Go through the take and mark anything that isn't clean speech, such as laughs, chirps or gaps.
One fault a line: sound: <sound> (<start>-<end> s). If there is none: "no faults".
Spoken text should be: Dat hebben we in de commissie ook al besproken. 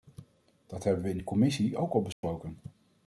sound: dropout (2.1-2.2 s)